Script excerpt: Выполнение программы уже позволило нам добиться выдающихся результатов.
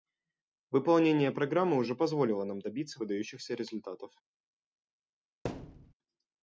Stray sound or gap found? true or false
true